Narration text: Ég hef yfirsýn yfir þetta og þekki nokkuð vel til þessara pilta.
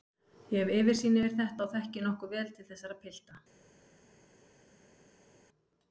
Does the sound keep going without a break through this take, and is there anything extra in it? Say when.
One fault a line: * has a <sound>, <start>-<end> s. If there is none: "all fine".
all fine